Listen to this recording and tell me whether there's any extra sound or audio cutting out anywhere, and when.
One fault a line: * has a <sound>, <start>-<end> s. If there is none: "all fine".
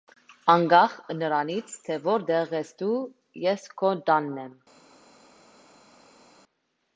all fine